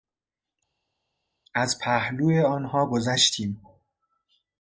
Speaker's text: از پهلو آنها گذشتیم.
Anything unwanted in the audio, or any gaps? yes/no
no